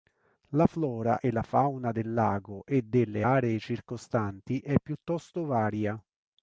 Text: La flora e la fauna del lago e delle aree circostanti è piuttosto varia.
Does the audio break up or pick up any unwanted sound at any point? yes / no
no